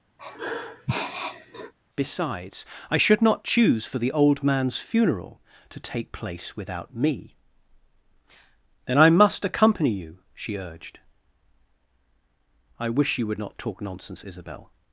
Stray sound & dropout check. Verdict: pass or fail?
fail